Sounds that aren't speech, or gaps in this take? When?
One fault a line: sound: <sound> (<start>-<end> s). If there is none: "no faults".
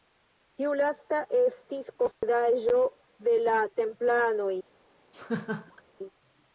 sound: dropout (2.1-2.2 s)
sound: laugh (5.1-5.8 s)